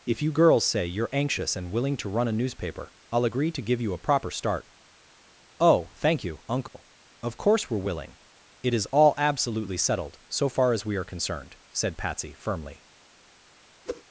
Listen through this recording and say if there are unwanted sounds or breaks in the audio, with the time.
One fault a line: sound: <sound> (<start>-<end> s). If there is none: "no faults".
sound: dropout (6.7-6.7 s)
sound: whoosh (13.9-14.0 s)